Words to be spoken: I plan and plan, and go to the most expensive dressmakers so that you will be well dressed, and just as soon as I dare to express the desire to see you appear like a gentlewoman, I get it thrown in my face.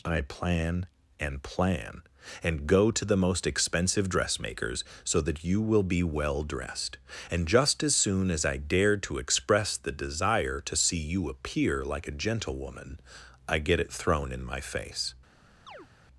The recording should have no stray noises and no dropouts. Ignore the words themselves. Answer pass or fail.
fail